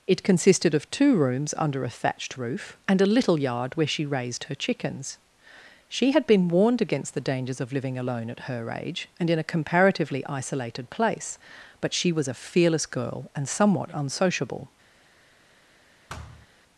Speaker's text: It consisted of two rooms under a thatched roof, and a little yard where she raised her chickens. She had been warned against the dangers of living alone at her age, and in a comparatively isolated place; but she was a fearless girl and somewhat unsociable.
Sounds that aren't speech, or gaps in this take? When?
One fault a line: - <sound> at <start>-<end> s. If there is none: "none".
- thud at 16.1-16.5 s